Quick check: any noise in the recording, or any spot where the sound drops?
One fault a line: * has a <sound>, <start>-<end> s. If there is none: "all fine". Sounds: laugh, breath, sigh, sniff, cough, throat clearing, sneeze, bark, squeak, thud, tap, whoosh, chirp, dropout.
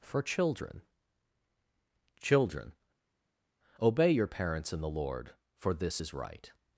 all fine